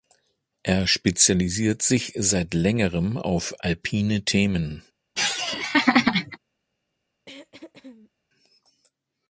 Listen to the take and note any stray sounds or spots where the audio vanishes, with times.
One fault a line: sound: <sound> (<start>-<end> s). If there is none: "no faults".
sound: laugh (5.2-6.4 s)
sound: throat clearing (7.3-8.1 s)